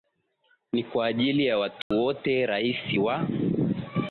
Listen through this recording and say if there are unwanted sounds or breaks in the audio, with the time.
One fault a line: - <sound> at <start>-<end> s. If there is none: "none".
- dropout at 1.8-1.9 s